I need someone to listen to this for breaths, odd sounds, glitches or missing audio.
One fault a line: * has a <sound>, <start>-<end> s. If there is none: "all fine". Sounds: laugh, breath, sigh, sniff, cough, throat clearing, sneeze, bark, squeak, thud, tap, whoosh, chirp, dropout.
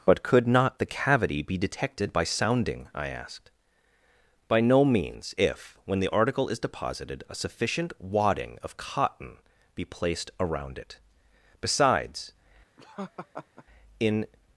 * has a laugh, 12.8-13.6 s